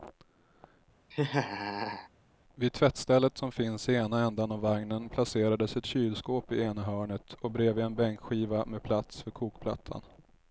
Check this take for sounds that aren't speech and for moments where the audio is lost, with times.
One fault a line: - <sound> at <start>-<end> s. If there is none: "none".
- laugh at 1.1-2.1 s